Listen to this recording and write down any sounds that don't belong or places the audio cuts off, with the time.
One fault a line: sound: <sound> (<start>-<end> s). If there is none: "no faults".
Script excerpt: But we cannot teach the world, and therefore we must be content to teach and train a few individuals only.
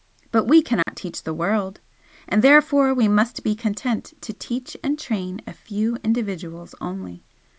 sound: dropout (0.8-0.9 s)